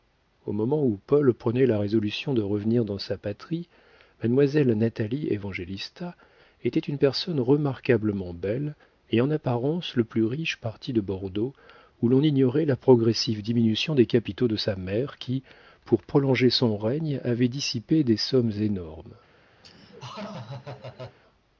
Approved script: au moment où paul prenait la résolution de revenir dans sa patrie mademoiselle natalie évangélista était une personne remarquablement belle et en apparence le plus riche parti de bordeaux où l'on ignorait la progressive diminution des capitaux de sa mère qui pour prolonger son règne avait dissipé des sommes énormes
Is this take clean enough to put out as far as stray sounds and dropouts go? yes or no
no